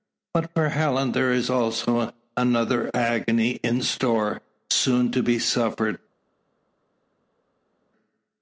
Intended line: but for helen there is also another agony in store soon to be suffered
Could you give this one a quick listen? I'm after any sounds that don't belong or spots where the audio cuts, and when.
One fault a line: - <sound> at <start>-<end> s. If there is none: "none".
none